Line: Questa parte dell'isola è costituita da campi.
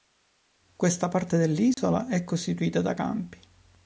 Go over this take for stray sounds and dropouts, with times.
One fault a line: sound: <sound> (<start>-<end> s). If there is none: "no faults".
sound: dropout (1.7-1.8 s)